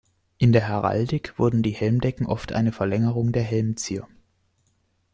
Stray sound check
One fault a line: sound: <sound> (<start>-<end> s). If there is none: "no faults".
no faults